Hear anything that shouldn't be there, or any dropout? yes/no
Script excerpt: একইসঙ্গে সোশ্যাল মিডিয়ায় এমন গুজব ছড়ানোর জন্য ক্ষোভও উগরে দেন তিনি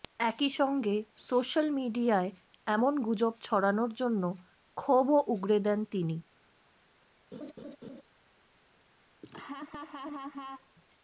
yes